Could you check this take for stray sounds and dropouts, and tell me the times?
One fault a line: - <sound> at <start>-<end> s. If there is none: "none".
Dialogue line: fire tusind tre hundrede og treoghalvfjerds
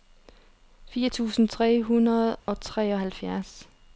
- dropout at 2.4-2.5 s